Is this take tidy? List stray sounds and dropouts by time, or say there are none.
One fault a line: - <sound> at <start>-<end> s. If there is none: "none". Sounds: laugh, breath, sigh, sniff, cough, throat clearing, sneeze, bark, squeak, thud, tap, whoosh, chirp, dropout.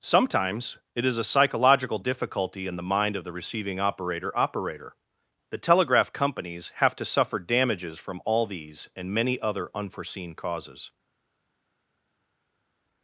none